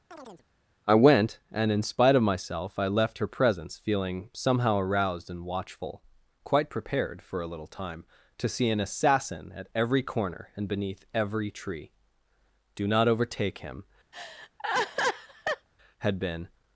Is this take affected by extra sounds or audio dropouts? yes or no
yes